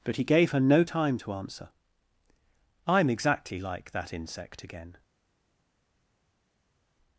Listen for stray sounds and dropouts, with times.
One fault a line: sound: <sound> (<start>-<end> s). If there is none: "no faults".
no faults